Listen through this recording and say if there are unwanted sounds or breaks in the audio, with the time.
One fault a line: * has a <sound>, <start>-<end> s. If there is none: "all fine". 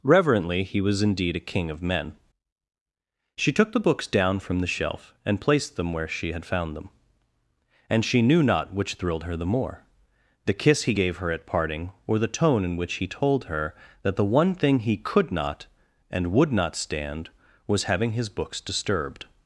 all fine